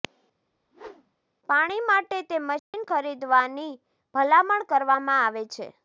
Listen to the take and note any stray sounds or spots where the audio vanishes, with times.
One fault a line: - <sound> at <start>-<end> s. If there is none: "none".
- whoosh at 0.5-1.2 s
- dropout at 2.6-2.7 s